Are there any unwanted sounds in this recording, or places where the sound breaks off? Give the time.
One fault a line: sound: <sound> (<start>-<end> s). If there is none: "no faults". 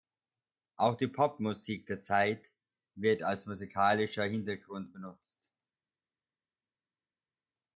no faults